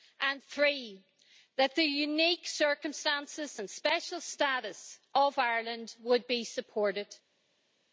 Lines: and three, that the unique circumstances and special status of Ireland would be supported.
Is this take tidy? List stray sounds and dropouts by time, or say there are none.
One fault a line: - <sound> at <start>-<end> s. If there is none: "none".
none